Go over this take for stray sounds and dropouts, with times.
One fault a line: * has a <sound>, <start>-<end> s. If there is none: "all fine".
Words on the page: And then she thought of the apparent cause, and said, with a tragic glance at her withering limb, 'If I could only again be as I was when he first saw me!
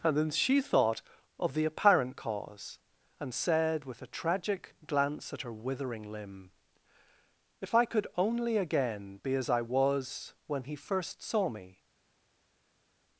all fine